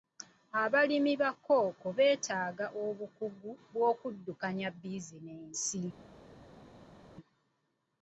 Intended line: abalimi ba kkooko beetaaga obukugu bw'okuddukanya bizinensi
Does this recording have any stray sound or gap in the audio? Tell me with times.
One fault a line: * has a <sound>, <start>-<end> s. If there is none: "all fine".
all fine